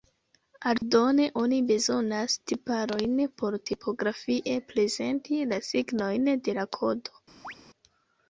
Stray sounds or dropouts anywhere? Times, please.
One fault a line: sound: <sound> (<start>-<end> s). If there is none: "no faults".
sound: dropout (0.8-0.8 s)
sound: chirp (7.4-7.5 s)